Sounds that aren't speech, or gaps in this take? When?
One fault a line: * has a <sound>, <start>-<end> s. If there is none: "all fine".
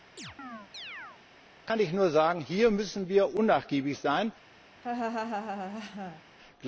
* has a chirp, 0.2-1.2 s
* has a laugh, 4.8-6.2 s